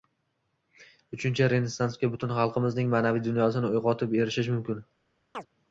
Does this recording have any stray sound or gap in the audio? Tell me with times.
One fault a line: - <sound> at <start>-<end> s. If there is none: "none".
- chirp at 5.3-5.5 s